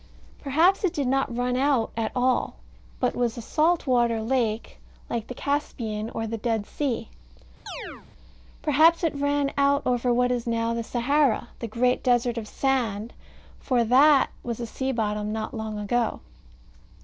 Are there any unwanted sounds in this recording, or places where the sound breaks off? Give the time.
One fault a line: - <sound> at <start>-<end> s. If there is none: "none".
- chirp at 7.7-8.1 s